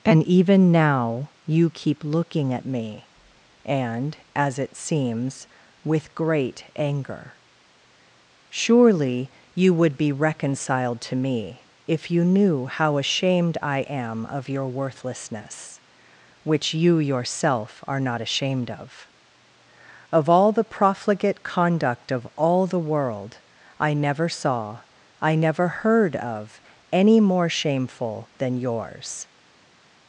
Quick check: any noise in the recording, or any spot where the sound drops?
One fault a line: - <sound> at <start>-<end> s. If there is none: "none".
none